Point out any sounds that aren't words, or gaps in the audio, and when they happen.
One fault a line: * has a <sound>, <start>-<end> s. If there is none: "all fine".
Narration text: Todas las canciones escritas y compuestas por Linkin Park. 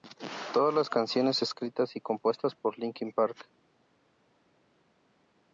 all fine